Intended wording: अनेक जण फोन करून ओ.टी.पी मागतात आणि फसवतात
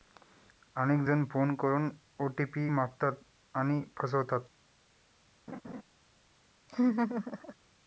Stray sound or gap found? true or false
true